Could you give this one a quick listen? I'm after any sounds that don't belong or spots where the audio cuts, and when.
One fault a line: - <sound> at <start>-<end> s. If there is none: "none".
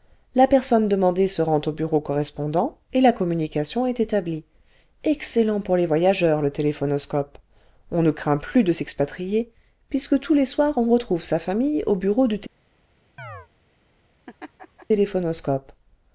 - chirp at 13.2-13.5 s
- laugh at 14.3-14.9 s